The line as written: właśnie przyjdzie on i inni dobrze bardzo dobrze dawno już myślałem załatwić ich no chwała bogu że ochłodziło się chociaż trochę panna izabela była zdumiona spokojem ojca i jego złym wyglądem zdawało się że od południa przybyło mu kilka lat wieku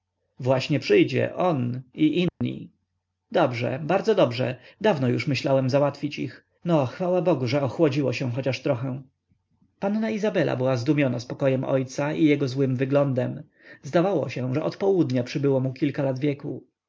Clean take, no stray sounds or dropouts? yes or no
no